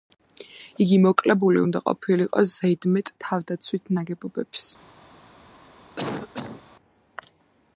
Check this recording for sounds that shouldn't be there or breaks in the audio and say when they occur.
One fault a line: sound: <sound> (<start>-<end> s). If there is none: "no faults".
sound: cough (6.0-6.6 s)